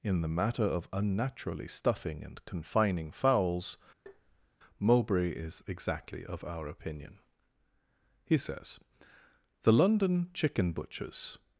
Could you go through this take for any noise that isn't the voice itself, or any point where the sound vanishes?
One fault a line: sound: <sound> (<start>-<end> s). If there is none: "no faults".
sound: tap (4.1-4.5 s)